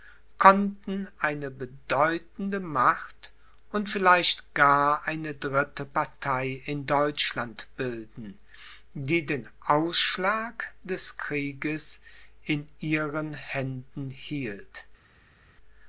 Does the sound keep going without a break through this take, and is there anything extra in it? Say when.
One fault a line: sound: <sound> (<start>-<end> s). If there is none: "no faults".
no faults